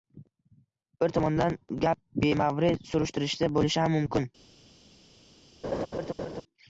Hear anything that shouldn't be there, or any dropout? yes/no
yes